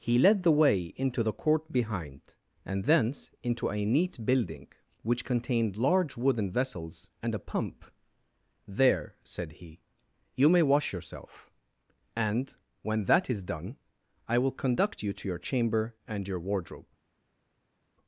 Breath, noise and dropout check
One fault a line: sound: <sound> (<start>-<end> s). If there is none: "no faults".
no faults